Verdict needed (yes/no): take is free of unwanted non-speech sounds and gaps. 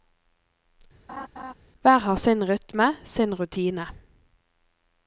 no